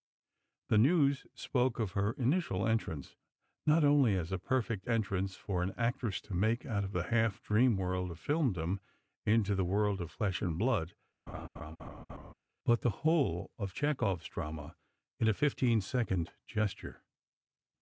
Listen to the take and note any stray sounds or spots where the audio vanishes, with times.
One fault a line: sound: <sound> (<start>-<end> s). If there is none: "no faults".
sound: laugh (11.3-12.3 s)